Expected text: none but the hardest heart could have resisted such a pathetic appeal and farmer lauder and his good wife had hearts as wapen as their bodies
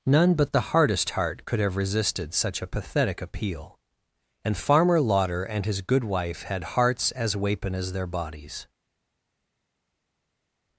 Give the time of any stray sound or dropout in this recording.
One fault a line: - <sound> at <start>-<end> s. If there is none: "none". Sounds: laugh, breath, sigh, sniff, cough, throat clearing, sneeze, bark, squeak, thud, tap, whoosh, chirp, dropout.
none